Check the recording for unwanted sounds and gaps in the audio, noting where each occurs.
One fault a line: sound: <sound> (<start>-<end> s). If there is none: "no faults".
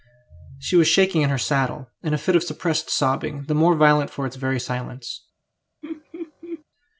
sound: laugh (5.8-6.6 s)